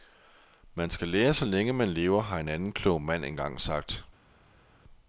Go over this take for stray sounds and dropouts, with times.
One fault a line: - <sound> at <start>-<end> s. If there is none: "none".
none